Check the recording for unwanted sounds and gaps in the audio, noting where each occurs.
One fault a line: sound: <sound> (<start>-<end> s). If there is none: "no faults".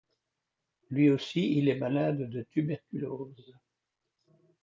no faults